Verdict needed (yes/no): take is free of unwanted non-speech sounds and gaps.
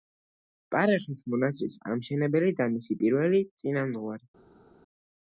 yes